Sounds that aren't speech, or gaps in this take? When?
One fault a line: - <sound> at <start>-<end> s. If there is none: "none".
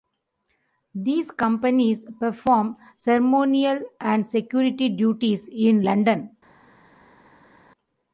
none